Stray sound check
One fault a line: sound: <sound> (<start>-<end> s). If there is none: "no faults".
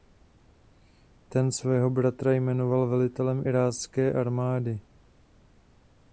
no faults